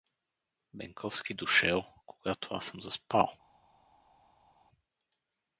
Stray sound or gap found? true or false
false